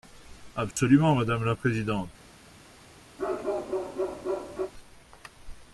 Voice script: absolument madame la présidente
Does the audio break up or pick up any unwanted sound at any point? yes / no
yes